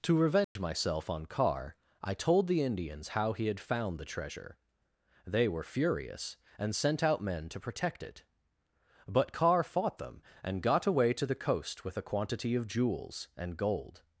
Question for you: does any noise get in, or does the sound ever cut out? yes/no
yes